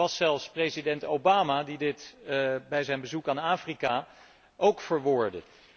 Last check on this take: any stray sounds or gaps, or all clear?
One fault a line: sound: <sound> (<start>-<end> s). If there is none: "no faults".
no faults